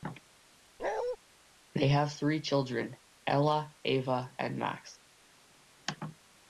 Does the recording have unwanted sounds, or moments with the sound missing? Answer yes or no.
yes